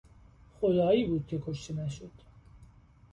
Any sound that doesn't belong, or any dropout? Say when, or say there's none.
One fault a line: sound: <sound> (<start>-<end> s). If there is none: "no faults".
no faults